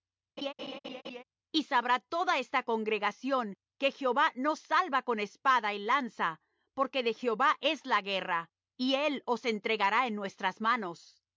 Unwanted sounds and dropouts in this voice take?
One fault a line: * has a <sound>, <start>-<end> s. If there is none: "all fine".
* has a laugh, 0.4-1.2 s